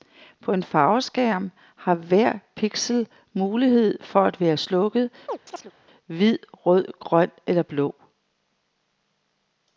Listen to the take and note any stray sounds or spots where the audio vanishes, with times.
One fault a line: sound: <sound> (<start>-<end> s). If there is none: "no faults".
sound: chirp (5.3-5.7 s)